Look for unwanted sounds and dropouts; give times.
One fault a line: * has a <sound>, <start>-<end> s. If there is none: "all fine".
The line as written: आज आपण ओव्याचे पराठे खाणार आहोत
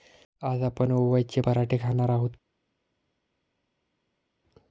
all fine